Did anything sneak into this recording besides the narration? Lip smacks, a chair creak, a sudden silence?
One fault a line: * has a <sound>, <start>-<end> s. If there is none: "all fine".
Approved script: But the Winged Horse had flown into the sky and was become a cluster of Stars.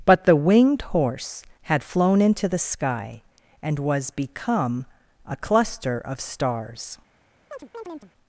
* has a chirp, 7.5-8.1 s